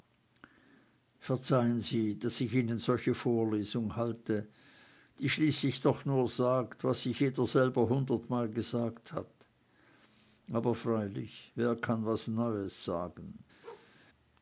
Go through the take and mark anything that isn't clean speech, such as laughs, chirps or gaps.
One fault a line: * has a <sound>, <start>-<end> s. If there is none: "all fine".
* has a bark, 13.6-13.9 s